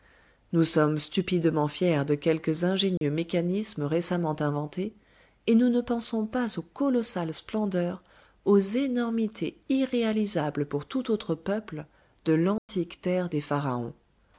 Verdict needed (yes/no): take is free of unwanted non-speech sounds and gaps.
no